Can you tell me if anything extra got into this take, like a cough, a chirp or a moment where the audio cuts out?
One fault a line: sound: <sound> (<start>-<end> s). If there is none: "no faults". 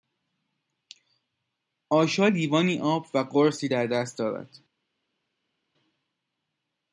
no faults